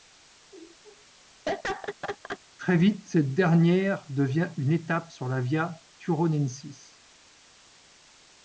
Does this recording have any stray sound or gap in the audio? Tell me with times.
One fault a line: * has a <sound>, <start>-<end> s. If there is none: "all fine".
* has a laugh, 1.5-2.4 s